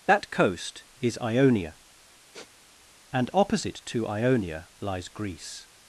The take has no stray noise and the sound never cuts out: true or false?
false